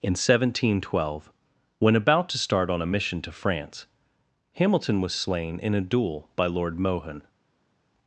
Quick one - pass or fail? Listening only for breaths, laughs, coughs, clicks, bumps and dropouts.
pass